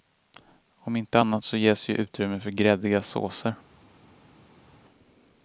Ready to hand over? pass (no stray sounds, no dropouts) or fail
pass